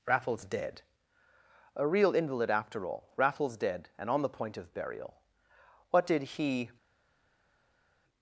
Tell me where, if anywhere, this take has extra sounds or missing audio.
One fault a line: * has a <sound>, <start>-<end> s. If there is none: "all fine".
all fine